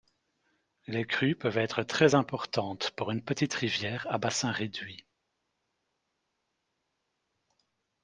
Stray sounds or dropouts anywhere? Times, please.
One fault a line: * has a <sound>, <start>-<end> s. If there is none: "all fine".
all fine